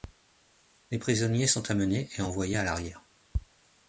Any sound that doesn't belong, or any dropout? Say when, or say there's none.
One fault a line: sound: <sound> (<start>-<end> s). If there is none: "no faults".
no faults